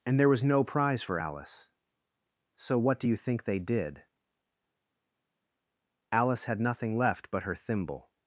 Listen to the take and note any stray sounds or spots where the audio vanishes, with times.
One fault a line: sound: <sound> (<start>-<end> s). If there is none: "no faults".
no faults